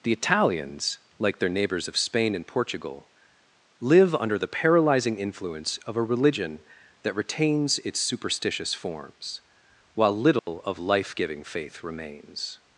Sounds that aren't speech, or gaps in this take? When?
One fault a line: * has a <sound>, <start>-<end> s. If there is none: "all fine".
* has a dropout, 10.4-10.5 s